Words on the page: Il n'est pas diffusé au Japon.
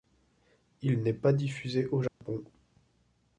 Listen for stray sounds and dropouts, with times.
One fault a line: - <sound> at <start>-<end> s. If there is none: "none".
- dropout at 2.1-2.2 s